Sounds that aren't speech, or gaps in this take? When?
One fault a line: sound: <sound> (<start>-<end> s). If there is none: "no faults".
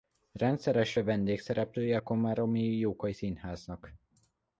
no faults